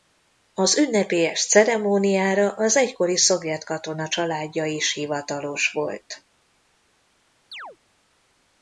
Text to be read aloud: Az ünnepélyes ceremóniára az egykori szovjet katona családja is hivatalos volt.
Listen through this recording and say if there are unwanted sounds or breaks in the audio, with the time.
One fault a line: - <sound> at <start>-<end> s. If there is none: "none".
- chirp at 7.5-7.8 s